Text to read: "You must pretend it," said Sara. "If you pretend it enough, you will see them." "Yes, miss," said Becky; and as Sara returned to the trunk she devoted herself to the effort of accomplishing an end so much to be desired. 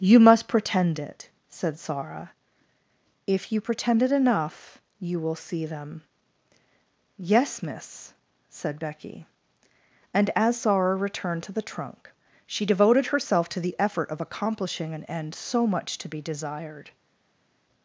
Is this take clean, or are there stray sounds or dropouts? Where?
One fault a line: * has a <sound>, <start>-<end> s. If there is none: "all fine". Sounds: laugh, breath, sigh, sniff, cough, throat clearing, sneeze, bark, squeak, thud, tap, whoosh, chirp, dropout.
all fine